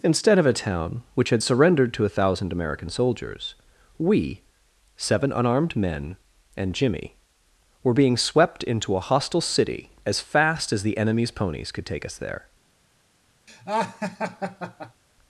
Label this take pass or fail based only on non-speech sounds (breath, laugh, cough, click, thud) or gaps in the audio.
fail